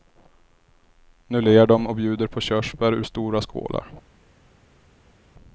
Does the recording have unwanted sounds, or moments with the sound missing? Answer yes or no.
no